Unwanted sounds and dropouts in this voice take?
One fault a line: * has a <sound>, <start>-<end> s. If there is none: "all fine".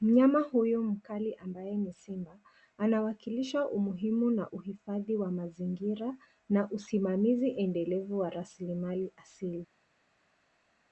all fine